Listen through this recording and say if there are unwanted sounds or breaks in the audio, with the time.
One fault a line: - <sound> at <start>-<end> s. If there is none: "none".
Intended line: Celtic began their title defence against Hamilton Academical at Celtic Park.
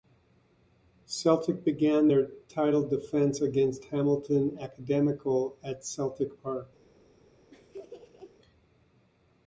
- laugh at 7.5-8.4 s